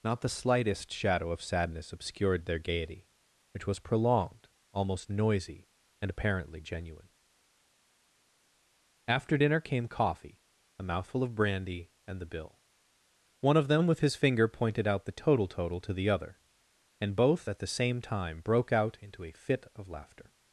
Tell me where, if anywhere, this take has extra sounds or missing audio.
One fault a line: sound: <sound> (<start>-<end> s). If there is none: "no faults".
no faults